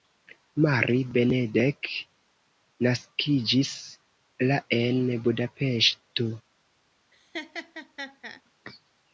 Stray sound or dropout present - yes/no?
yes